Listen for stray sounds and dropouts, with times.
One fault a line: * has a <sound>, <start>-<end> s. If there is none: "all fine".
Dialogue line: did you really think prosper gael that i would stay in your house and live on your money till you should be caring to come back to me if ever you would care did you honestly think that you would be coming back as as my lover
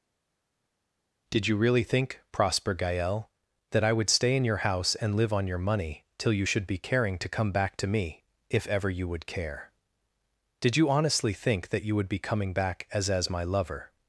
all fine